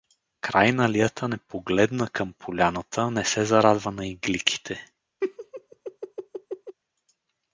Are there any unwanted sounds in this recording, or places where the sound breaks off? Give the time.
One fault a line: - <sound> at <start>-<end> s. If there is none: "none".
- laugh at 5.2-6.8 s